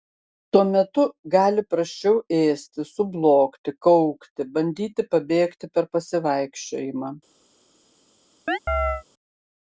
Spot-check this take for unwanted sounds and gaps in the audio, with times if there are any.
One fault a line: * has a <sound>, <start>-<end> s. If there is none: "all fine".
* has a chirp, 8.5-9.0 s